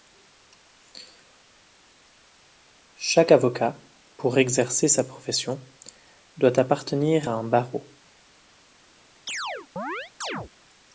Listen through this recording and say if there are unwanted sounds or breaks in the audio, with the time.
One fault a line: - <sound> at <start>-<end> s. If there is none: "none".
- chirp at 9.3-10.5 s